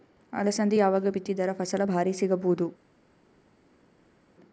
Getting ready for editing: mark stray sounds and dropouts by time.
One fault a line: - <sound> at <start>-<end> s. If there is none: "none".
none